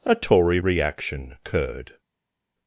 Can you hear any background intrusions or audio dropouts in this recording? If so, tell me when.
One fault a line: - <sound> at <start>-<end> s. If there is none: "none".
none